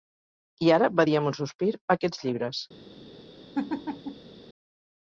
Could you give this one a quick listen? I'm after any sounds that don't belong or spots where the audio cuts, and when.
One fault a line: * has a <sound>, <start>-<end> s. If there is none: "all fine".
* has a laugh, 3.5-4.3 s